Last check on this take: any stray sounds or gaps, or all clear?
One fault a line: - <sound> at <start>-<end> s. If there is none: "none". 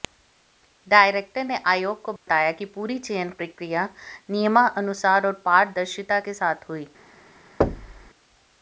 - dropout at 2.2-2.3 s
- thud at 7.6-8.1 s